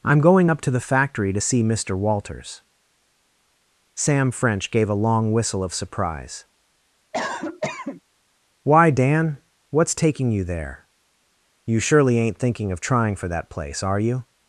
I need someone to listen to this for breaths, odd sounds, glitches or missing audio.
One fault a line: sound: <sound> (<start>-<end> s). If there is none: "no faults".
sound: cough (7.1-8.0 s)